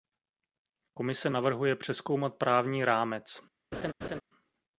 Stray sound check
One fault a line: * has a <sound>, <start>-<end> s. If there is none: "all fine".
* has a laugh, 3.7-4.2 s